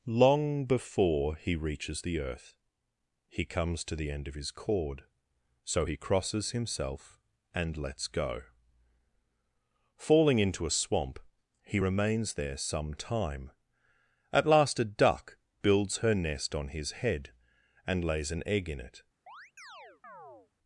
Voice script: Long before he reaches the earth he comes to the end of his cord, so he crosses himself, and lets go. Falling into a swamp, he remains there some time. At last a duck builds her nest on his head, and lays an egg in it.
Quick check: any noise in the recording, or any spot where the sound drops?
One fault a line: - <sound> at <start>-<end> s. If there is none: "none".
- chirp at 19.3-20.5 s